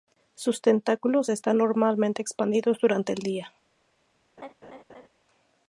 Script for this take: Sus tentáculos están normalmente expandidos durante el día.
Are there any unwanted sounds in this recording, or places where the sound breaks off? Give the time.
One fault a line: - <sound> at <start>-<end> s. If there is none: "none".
- laugh at 4.4-5.1 s